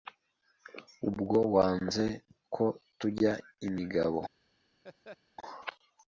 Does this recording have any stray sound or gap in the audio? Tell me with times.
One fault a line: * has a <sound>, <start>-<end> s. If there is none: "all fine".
* has a laugh, 4.8-5.2 s